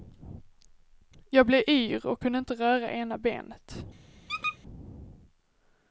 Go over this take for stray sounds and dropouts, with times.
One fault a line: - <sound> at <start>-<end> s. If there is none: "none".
- squeak at 4.3-4.6 s